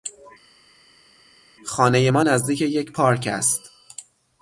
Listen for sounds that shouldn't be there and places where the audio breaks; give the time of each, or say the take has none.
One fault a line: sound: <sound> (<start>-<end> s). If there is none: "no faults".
no faults